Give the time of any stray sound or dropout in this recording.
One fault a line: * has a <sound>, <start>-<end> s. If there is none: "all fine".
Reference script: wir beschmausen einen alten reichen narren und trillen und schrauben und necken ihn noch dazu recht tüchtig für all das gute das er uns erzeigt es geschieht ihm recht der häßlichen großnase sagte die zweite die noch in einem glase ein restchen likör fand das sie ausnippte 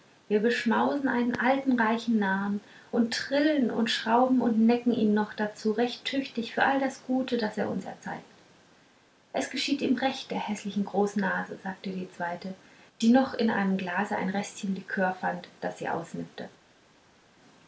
all fine